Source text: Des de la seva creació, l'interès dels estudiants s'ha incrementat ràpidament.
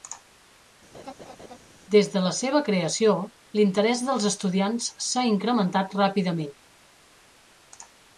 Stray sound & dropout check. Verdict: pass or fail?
fail